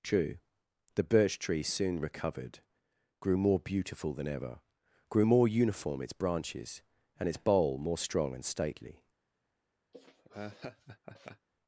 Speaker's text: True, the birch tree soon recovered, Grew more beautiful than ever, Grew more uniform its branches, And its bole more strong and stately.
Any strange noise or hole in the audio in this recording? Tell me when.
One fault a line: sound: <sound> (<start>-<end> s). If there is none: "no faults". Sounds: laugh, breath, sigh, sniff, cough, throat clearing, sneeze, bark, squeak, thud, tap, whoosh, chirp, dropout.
sound: laugh (9.9-11.5 s)